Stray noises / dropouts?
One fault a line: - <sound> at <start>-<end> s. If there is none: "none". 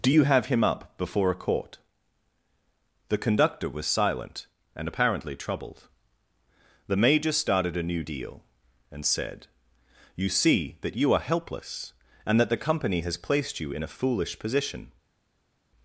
none